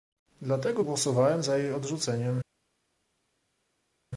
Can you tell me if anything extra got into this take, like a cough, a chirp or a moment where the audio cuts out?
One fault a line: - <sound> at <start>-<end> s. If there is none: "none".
none